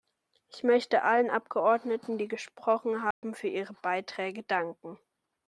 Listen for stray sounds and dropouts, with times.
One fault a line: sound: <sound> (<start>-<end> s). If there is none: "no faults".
sound: dropout (3.1-3.2 s)